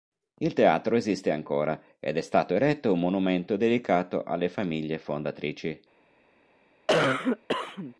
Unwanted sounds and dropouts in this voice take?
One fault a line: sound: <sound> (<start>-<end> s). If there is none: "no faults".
sound: cough (6.9-7.9 s)